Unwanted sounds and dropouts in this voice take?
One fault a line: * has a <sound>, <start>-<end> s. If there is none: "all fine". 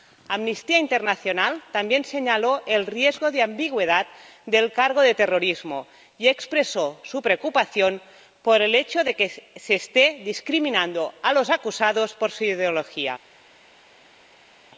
all fine